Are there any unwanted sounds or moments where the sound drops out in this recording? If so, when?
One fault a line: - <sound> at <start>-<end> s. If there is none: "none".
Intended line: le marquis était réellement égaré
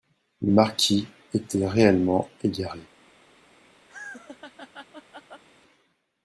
- laugh at 3.9-5.4 s